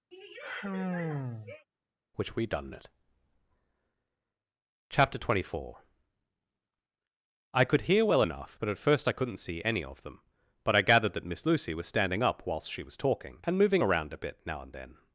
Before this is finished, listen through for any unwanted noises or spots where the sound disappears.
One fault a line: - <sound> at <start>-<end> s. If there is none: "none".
- sigh at 0.1-1.7 s